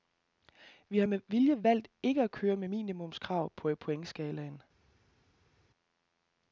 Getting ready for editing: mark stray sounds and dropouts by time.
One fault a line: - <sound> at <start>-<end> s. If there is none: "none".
none